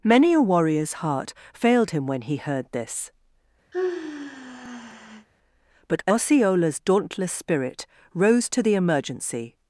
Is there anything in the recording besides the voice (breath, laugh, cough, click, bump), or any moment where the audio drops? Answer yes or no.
yes